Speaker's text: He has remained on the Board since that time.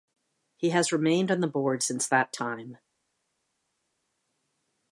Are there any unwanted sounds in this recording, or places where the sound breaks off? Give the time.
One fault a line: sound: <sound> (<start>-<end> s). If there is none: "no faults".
no faults